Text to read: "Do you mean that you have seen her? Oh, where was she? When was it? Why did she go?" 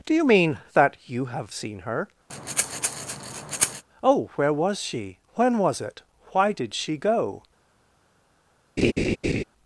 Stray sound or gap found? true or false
true